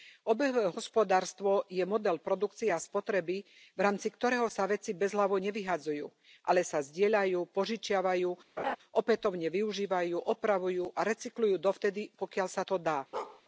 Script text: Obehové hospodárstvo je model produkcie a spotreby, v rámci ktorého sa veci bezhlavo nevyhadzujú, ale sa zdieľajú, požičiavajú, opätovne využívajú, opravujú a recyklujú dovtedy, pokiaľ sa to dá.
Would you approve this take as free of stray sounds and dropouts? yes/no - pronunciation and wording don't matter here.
no